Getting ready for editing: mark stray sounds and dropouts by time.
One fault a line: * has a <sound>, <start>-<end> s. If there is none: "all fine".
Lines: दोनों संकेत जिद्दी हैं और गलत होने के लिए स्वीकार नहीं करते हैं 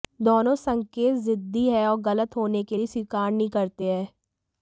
all fine